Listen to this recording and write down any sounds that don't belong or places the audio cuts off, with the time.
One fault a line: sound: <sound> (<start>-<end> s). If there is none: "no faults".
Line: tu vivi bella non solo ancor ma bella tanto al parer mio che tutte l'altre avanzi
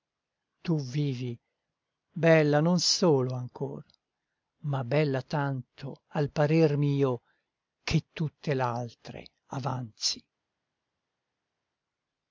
no faults